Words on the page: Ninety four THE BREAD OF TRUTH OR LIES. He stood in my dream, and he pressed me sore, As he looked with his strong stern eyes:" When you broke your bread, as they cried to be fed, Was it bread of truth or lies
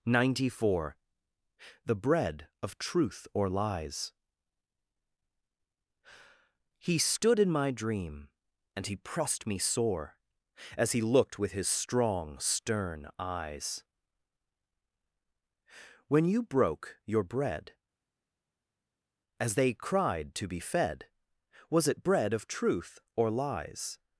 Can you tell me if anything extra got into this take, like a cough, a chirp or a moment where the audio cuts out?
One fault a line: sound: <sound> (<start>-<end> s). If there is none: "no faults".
no faults